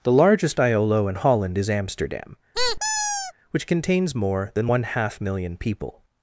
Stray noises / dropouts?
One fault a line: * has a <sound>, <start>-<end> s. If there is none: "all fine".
* has a squeak, 2.5-3.3 s